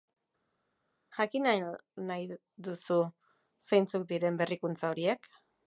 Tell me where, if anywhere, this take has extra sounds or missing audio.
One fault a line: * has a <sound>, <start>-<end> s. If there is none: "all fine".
all fine